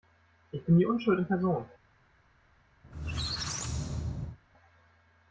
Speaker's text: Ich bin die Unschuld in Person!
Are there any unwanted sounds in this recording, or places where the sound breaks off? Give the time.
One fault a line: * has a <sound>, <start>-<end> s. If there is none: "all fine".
* has a squeak, 2.8-4.4 s